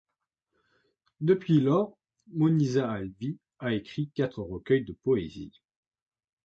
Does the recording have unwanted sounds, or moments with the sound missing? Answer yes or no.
no